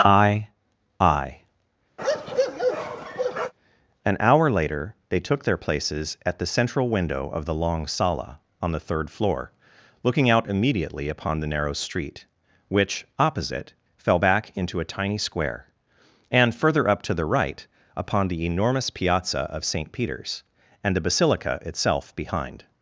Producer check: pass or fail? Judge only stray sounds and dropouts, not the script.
fail